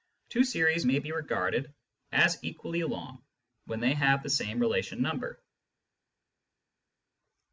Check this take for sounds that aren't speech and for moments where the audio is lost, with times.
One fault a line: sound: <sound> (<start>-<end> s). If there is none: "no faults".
no faults